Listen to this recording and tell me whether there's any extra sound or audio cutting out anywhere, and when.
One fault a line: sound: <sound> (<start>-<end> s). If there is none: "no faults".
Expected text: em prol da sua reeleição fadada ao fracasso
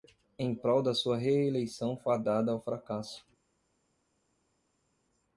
no faults